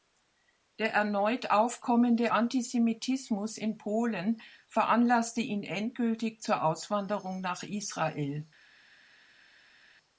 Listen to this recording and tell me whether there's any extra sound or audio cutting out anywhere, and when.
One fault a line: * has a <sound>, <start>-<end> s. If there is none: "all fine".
all fine